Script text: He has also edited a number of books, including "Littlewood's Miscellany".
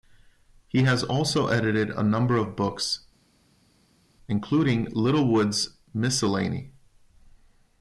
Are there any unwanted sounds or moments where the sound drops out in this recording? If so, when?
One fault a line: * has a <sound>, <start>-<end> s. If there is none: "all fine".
all fine